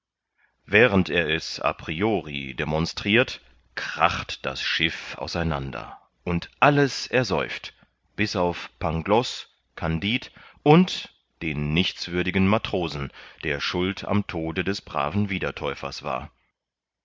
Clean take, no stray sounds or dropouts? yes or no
yes